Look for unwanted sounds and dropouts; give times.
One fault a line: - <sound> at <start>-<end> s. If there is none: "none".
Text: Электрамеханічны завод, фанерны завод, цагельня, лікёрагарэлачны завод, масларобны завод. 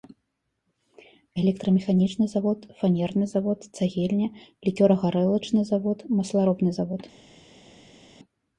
none